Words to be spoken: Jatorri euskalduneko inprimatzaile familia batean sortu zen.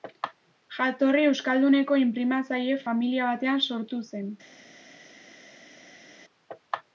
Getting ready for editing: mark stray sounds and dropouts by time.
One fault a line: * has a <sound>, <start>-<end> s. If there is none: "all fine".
all fine